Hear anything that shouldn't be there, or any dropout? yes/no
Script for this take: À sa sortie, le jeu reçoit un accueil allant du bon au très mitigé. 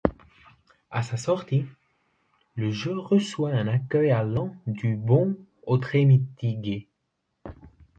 no